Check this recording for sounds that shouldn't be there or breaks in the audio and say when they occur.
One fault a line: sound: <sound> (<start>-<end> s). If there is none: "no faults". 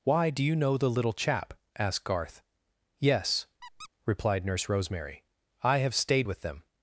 sound: squeak (3.6-3.9 s)